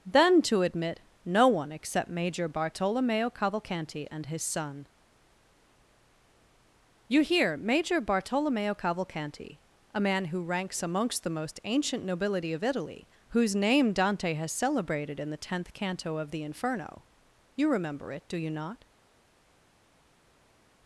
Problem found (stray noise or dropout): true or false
false